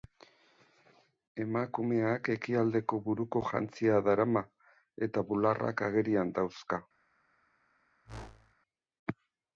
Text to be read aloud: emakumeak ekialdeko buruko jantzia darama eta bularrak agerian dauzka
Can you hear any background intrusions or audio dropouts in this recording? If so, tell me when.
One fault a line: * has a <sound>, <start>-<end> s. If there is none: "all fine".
* has a whoosh, 8.0-8.5 s